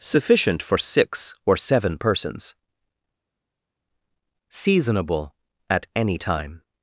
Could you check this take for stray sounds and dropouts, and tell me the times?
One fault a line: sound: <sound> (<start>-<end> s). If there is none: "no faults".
no faults